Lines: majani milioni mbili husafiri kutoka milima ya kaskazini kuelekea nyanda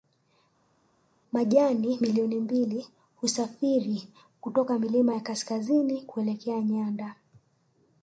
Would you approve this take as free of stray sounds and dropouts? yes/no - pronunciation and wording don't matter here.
yes